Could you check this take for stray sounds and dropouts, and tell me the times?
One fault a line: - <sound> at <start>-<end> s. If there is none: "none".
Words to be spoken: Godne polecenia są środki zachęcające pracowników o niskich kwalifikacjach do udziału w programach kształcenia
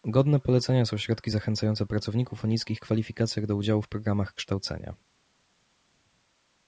none